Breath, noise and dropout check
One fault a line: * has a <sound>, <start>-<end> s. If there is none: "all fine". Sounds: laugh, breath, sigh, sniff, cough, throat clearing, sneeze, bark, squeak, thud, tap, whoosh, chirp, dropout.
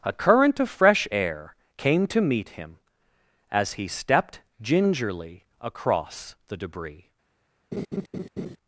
* has a laugh, 7.7-8.6 s